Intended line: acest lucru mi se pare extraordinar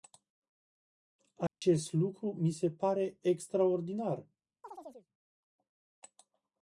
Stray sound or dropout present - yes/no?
yes